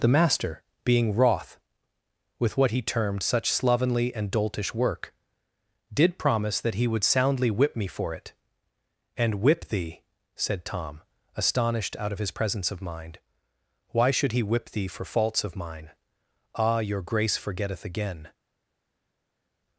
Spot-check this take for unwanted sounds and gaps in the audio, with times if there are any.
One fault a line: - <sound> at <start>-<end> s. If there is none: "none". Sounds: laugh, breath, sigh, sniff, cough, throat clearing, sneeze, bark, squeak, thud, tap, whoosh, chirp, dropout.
none